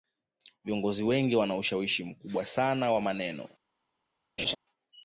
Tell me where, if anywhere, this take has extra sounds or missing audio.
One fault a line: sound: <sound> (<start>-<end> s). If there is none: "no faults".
sound: laugh (4.4-4.6 s)